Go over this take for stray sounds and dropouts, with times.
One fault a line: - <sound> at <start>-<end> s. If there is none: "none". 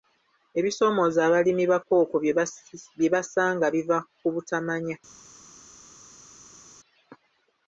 none